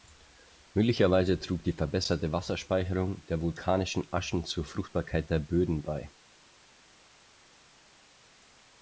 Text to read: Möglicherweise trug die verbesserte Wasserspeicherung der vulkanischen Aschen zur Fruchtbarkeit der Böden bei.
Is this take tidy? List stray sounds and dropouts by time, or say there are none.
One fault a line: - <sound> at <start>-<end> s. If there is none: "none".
none